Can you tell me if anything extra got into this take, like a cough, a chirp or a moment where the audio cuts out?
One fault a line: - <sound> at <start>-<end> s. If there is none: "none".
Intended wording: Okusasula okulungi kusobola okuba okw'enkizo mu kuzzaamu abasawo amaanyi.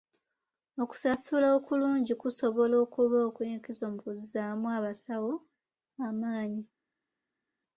none